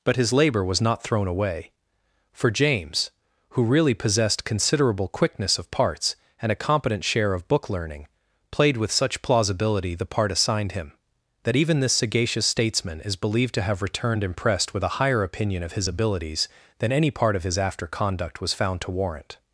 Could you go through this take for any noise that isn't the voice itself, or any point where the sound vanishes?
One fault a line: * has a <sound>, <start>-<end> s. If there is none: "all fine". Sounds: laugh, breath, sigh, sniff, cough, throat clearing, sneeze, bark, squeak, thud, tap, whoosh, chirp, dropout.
all fine